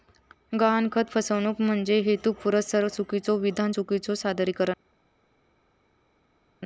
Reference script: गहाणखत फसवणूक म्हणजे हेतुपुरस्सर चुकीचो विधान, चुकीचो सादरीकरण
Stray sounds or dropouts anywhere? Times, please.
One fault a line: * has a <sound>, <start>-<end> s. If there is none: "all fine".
all fine